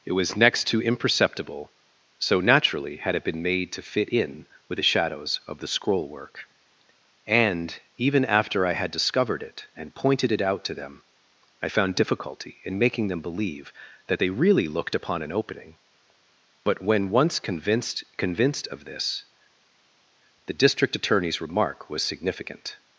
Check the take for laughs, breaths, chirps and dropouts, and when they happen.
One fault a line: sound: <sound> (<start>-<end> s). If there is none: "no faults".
no faults